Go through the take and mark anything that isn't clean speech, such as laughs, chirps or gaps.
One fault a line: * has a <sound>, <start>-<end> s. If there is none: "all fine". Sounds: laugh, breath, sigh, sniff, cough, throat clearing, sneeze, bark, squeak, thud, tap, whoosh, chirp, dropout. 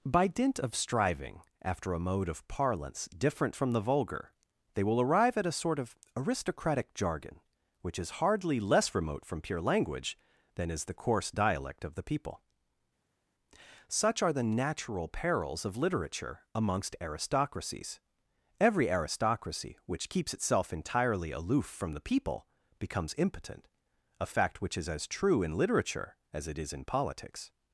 all fine